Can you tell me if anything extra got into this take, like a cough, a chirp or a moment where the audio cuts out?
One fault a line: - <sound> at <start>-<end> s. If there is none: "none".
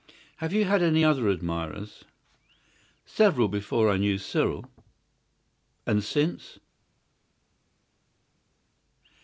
none